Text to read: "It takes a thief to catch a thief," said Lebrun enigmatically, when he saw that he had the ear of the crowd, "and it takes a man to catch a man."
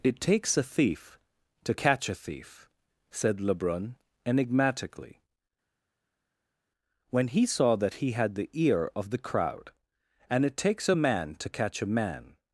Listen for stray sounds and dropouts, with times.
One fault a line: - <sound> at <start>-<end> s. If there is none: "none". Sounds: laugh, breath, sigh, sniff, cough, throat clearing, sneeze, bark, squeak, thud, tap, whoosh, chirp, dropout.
none